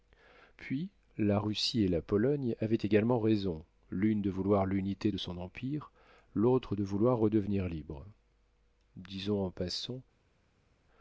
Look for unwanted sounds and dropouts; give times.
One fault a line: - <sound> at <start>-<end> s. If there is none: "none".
none